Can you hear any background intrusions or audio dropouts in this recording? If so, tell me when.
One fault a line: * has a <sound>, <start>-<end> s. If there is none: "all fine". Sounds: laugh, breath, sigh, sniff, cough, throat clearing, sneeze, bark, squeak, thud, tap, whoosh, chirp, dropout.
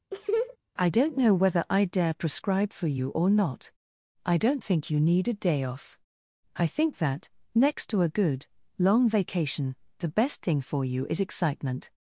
* has a laugh, 0.1-0.6 s